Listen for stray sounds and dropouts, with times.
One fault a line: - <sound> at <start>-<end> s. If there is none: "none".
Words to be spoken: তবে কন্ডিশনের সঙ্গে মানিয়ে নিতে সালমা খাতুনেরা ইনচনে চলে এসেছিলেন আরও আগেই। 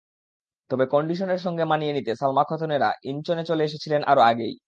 none